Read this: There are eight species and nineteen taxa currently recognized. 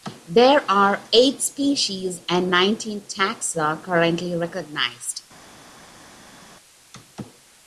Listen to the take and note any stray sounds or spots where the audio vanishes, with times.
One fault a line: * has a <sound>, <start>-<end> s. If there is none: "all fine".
all fine